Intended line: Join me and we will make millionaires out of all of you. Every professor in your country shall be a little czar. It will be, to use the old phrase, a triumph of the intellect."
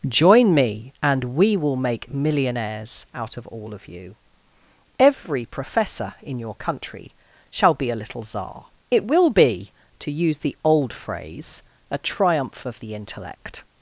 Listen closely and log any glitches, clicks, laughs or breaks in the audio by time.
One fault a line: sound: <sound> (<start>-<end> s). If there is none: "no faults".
no faults